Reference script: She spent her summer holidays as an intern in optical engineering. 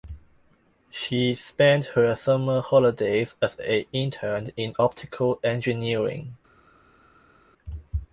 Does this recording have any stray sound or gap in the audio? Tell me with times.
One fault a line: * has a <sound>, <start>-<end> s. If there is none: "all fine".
all fine